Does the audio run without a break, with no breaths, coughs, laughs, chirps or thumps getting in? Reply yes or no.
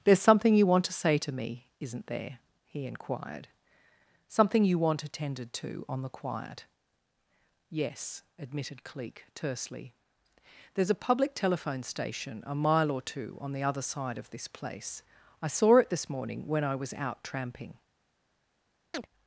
no